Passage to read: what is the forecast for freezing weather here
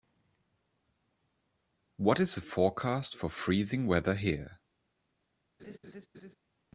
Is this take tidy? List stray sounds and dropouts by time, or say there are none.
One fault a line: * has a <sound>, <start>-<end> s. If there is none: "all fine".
* has a laugh, 5.6-6.4 s